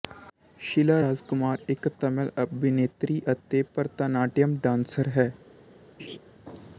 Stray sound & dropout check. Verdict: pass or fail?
fail